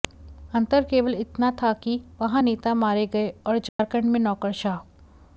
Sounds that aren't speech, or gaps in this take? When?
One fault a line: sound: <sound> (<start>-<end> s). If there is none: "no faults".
sound: dropout (3.7-3.8 s)